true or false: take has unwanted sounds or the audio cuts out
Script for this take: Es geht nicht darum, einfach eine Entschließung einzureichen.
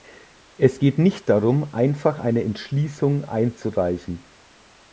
false